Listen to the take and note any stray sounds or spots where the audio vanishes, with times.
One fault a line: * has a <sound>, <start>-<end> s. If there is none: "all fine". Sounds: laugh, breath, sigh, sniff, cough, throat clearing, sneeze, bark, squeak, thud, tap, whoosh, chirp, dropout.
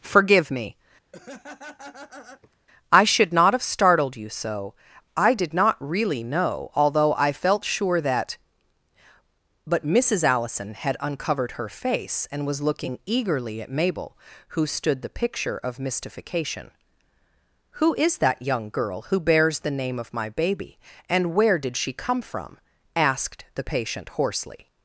* has a laugh, 1.1-2.6 s